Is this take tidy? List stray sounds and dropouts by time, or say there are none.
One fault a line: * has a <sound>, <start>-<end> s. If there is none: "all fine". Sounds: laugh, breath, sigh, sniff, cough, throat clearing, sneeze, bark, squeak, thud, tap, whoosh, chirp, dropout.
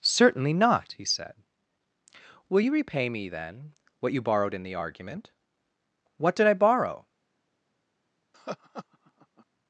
* has a laugh, 8.3-9.5 s